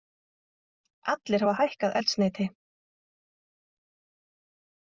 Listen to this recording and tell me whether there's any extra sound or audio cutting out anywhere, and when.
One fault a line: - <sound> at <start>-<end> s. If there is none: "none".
none